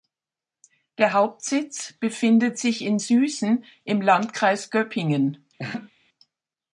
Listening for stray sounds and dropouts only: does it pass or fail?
fail